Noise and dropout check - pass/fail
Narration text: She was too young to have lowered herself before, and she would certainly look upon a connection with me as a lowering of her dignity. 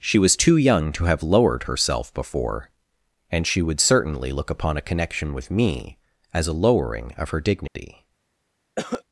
fail